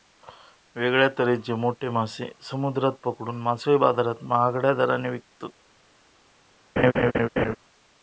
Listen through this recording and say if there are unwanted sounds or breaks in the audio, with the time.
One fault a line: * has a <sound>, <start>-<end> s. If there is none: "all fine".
* has a laugh, 6.8-7.6 s